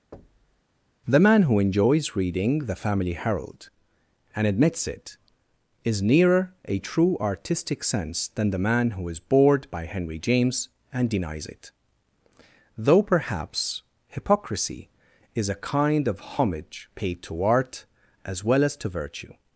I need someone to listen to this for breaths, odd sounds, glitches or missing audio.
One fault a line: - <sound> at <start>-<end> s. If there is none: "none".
- thud at 0.1-0.6 s